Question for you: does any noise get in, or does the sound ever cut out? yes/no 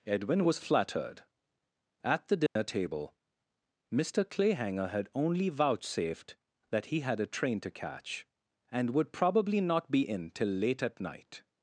yes